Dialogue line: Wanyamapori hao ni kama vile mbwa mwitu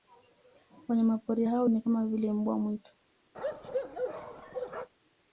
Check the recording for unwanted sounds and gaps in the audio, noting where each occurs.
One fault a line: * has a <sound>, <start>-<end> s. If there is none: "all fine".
* has a bark, 3.3-4.9 s